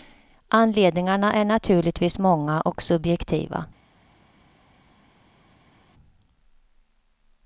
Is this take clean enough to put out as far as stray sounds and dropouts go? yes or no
yes